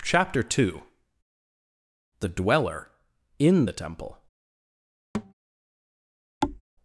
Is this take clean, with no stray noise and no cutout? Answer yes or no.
no